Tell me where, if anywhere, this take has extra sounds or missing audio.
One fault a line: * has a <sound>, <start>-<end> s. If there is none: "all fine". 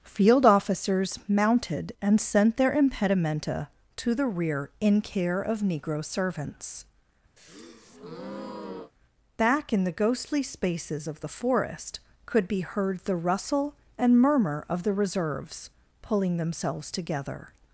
* has a breath, 7.4-8.9 s